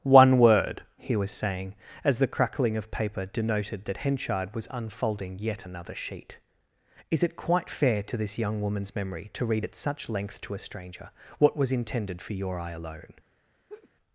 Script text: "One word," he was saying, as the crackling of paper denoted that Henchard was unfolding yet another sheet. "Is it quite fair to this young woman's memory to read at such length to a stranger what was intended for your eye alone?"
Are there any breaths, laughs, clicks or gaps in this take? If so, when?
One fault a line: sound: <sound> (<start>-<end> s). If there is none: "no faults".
sound: laugh (13.7-13.9 s)